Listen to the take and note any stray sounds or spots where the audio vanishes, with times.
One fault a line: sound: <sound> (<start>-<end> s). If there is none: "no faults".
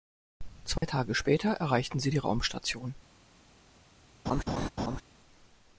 sound: dropout (0.8-0.8 s)
sound: laugh (4.3-5.0 s)